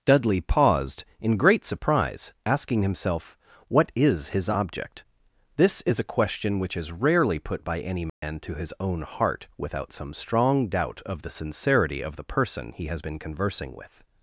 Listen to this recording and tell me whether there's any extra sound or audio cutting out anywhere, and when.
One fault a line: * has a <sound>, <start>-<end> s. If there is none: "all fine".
* has a dropout, 8.1-8.2 s